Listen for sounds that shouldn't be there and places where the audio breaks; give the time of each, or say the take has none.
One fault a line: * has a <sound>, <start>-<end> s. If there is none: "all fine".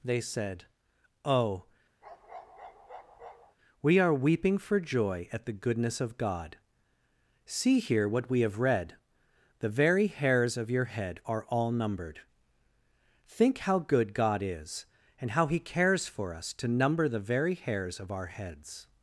* has a bark, 2.0-3.6 s